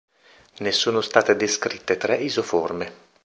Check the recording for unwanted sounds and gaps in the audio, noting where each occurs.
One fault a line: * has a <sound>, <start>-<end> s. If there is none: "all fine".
all fine